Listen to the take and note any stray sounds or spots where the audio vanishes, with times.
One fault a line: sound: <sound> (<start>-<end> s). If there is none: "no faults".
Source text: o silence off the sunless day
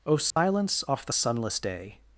sound: dropout (0.3-0.4 s)